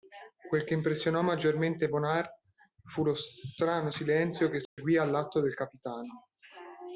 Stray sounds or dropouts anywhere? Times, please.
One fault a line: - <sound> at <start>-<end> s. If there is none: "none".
- dropout at 4.7-4.8 s